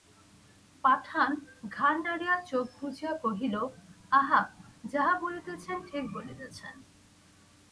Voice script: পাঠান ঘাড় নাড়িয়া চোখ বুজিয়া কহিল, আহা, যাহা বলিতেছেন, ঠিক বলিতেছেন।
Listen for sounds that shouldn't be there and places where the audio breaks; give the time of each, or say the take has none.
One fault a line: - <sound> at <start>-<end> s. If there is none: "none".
none